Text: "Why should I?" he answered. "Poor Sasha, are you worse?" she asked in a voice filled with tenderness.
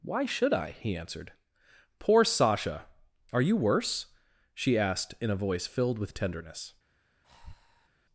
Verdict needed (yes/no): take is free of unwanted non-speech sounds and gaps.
no